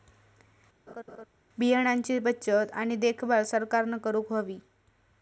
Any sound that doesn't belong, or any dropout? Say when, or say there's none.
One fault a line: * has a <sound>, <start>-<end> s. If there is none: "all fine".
* has a laugh, 0.9-1.3 s